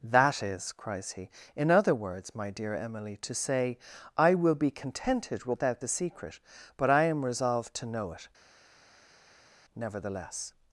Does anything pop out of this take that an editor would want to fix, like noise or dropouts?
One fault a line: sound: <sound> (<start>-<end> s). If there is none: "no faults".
no faults